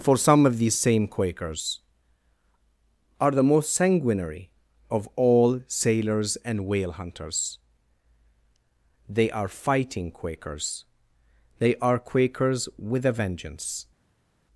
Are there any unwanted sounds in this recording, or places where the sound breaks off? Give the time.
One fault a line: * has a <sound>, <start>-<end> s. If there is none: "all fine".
all fine